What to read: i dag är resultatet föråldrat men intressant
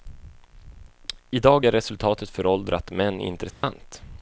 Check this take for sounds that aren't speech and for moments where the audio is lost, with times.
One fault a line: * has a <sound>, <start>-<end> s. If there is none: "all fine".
* has a dropout, 3.5-3.6 s